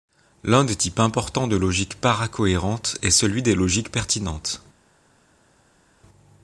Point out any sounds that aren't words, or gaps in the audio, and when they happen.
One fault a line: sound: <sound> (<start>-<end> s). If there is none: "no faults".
no faults